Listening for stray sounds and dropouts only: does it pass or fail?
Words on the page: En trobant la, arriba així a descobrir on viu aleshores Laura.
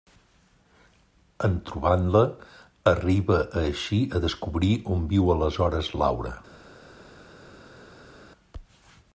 pass